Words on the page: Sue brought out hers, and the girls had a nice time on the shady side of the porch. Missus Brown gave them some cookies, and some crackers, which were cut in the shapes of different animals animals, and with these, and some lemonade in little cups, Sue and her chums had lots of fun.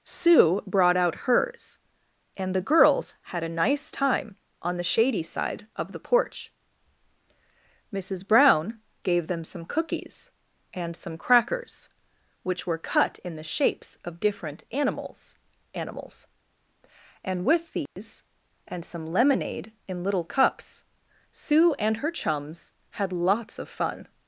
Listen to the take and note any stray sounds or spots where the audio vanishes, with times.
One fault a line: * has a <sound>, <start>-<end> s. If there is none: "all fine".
* has a dropout, 17.9-18.0 s